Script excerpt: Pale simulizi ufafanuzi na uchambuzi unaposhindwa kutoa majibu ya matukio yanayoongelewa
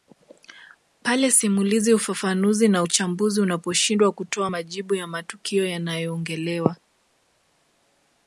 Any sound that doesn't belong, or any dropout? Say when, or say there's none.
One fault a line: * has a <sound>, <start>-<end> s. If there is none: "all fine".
all fine